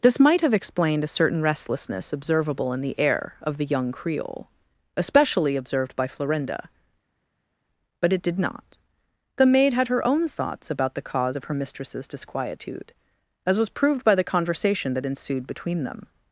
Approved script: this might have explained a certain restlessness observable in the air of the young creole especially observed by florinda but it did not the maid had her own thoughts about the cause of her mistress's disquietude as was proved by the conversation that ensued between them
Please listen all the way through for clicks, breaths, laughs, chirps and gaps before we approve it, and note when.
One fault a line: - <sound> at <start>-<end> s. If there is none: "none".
none